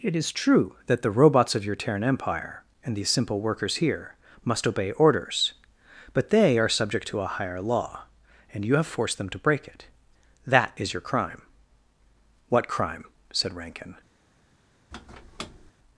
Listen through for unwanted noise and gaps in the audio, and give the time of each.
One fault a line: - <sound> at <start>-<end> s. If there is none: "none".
- squeak at 14.9-15.7 s